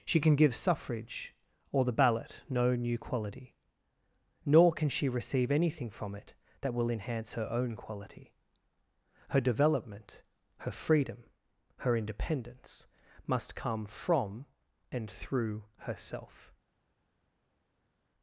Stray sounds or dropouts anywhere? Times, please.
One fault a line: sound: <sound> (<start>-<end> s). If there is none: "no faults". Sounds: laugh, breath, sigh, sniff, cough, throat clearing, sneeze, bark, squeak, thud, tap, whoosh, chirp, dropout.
no faults